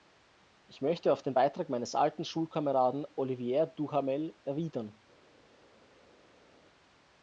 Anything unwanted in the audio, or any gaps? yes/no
no